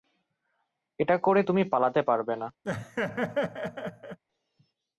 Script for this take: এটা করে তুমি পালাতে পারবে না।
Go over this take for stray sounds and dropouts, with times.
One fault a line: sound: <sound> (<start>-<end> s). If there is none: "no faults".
sound: laugh (2.6-4.2 s)